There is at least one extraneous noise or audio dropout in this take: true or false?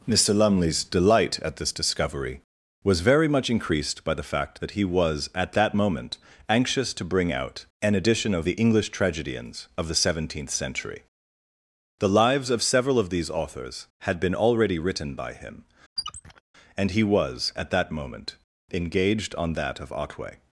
true